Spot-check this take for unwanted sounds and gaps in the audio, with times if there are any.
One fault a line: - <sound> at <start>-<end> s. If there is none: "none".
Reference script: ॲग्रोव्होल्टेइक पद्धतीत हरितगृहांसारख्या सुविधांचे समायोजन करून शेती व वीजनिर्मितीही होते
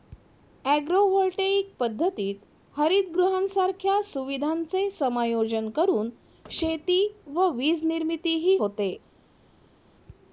none